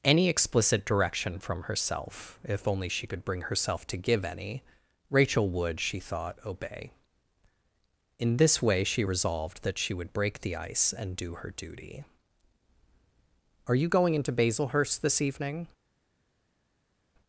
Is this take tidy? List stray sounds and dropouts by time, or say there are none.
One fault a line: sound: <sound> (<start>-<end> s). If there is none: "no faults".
no faults